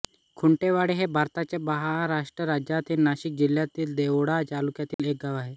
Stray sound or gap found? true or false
true